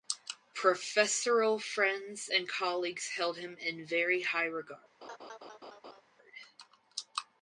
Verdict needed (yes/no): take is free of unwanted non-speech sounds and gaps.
no